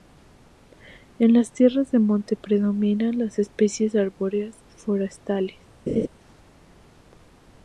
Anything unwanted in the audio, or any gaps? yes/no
yes